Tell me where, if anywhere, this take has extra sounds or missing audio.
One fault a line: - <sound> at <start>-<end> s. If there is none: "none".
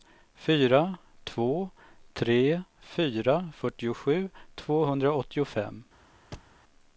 - thud at 6.3-6.6 s